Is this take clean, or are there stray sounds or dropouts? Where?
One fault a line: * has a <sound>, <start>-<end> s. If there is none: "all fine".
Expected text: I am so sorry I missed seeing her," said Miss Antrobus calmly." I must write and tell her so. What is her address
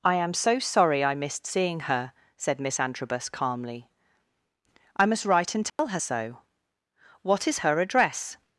* has a dropout, 5.7-5.8 s